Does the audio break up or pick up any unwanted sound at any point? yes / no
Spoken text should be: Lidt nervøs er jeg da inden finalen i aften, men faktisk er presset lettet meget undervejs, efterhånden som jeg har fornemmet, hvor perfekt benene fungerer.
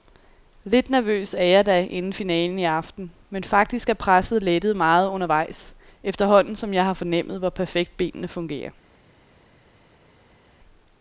no